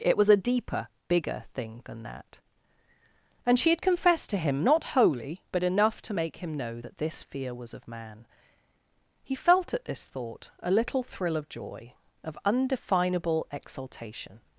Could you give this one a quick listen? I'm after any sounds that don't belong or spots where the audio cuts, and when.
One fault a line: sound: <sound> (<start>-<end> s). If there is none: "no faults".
no faults